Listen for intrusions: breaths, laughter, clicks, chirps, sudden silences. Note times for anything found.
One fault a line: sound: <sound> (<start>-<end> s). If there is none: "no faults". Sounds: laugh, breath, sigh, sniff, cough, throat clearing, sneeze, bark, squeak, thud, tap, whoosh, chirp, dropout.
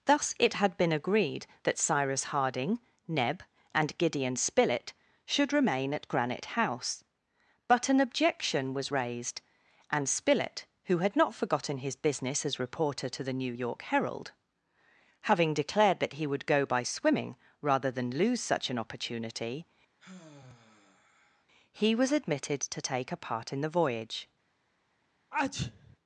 sound: sigh (20.0-21.5 s)
sound: sneeze (25.3-26.0 s)